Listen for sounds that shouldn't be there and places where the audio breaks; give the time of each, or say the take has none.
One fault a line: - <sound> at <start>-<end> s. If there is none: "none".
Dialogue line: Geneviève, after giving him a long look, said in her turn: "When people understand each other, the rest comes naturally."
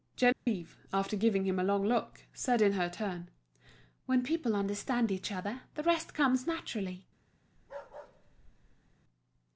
- dropout at 0.3-0.5 s
- bark at 7.6-9.0 s